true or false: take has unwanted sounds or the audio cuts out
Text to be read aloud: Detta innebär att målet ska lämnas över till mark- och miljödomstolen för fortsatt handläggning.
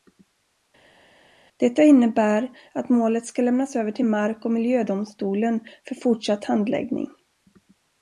false